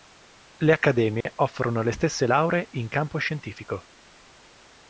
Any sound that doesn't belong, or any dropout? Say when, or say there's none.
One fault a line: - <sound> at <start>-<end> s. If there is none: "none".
- dropout at 1.2-1.3 s